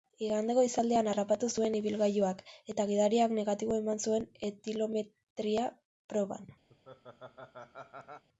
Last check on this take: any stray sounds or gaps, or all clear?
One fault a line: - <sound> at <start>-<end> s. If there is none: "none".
- laugh at 6.7-8.2 s